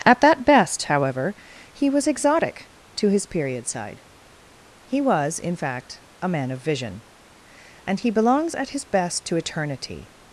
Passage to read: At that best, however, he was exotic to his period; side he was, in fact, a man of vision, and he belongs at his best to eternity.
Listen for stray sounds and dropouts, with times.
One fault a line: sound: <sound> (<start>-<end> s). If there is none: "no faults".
no faults